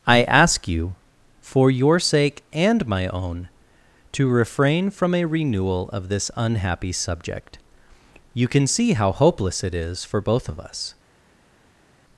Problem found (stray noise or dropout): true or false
false